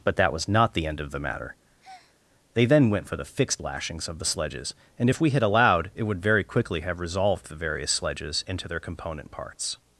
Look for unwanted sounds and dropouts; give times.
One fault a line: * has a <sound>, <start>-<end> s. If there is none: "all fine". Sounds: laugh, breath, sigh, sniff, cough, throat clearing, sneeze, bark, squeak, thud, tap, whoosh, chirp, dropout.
* has a breath, 1.8-2.2 s